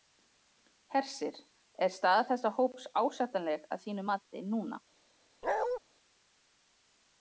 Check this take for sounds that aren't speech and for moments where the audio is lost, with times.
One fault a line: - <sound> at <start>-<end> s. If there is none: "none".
- bark at 5.4-5.8 s